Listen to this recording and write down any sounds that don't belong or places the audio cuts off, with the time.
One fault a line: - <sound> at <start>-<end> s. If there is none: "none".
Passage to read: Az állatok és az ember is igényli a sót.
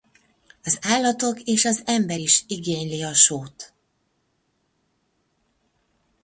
none